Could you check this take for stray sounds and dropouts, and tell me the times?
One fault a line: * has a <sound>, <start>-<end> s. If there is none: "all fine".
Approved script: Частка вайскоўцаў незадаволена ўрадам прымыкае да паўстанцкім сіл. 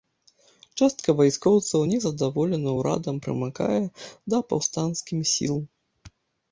all fine